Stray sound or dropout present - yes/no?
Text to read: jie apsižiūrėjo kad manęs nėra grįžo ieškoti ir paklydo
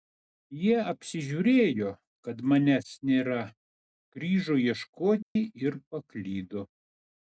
yes